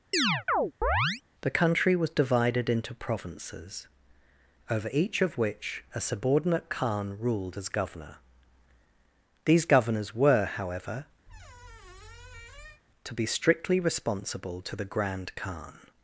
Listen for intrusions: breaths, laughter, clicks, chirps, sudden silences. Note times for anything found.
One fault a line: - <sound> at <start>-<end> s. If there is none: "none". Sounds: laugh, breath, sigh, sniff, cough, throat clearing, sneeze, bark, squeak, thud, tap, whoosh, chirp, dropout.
- chirp at 0.1-1.2 s
- squeak at 11.3-12.8 s